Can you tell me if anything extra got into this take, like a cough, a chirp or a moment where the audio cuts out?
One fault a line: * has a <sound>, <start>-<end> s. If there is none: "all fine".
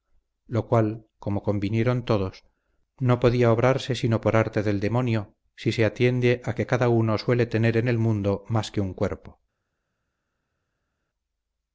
all fine